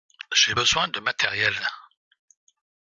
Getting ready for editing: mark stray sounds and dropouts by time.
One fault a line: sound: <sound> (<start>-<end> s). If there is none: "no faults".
no faults